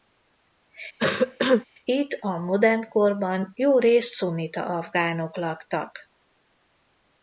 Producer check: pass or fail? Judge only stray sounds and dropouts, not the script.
fail